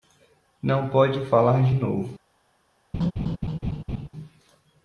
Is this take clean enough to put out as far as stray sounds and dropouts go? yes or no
no